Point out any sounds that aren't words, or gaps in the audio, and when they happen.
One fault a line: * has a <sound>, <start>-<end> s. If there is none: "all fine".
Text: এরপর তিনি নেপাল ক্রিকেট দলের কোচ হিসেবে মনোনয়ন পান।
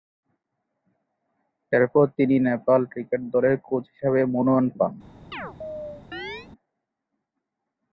* has a chirp, 5.3-6.5 s